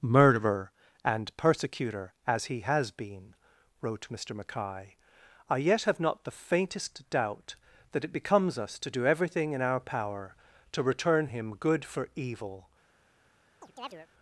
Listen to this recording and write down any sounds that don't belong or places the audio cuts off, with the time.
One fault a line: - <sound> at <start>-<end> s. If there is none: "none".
- chirp at 13.6-14.1 s